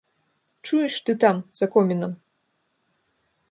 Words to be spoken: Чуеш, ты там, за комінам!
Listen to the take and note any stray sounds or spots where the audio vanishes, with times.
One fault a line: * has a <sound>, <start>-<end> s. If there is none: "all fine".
all fine